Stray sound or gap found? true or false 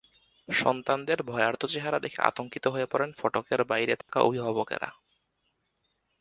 true